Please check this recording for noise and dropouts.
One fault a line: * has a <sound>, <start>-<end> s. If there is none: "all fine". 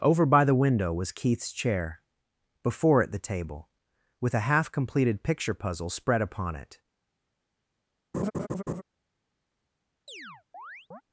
* has a laugh, 8.1-8.8 s
* has a chirp, 10.1-11.0 s